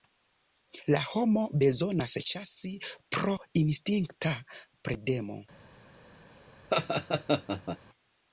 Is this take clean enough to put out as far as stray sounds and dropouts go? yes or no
no